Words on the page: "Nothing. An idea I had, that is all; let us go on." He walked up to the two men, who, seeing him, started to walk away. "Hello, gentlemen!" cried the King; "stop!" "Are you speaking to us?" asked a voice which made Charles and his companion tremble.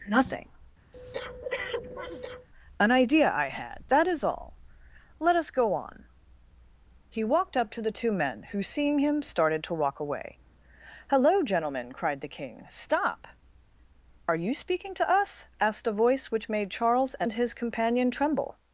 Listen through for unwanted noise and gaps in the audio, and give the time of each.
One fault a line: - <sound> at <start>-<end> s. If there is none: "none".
- breath at 0.9-2.5 s